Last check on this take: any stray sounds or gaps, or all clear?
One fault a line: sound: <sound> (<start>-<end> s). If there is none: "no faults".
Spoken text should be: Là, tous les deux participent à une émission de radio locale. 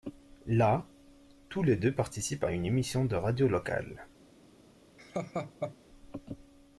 sound: laugh (5.0-5.8 s)